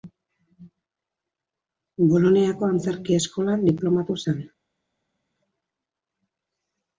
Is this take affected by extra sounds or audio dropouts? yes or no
no